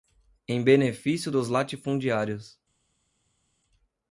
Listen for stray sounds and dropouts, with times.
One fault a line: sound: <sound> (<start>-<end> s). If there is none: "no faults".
no faults